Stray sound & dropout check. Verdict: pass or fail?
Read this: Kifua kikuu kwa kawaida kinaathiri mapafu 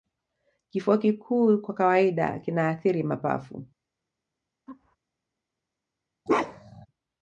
fail